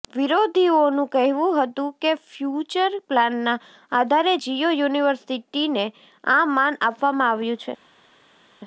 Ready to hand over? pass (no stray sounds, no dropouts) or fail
pass